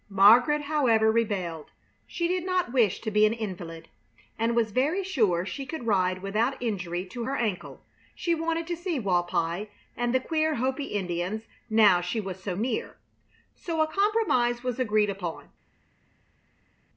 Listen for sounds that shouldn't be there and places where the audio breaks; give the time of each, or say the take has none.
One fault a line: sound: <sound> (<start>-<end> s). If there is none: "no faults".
no faults